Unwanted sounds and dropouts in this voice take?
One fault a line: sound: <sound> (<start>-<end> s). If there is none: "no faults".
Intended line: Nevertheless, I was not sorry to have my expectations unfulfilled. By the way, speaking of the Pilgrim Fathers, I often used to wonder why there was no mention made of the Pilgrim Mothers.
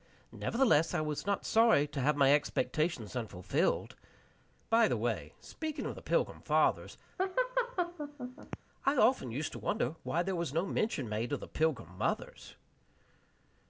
sound: laugh (7.2-8.6 s)